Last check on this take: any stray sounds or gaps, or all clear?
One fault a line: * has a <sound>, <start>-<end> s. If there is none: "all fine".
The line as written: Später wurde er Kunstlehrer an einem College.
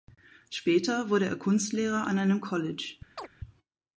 * has a chirp, 3.2-3.3 s